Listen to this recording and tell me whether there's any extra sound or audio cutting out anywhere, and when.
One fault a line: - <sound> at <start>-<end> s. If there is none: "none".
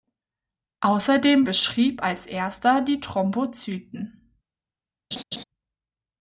- laugh at 5.1-5.4 s